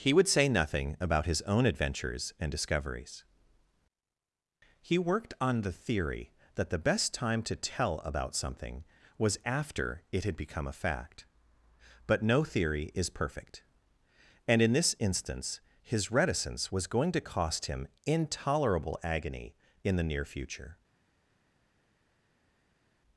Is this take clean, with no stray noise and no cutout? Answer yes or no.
yes